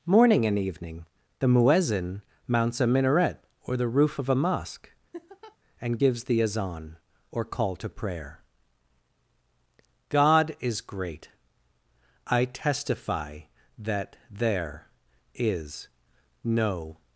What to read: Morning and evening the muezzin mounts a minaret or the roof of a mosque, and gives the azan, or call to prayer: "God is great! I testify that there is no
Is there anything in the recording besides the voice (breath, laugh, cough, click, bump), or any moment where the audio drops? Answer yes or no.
yes